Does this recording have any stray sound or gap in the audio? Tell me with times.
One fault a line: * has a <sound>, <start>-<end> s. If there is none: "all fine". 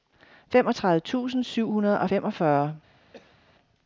* has a cough, 3.1-3.4 s